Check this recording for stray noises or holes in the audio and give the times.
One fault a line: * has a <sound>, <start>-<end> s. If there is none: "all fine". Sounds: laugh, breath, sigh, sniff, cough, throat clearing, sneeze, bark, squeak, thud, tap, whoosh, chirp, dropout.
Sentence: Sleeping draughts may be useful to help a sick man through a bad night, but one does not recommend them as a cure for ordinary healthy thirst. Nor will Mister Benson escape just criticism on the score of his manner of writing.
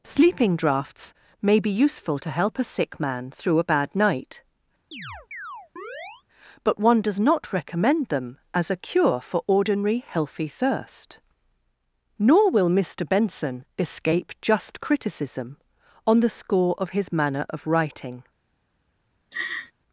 * has a chirp, 4.9-6.2 s
* has a laugh, 19.3-19.7 s